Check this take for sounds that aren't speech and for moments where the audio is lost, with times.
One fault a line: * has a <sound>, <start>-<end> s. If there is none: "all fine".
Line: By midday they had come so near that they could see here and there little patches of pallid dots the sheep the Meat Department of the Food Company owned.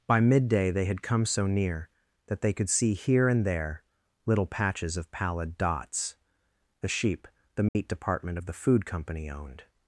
* has a dropout, 7.7-7.8 s